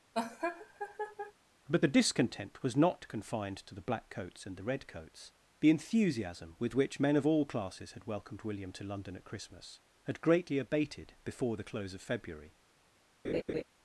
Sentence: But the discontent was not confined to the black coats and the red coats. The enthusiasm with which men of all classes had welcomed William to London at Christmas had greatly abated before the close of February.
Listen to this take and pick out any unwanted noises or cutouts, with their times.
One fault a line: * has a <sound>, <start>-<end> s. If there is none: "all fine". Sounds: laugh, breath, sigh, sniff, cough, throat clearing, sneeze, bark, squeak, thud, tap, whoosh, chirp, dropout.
* has a laugh, 0.1-1.3 s
* has a laugh, 13.2-13.6 s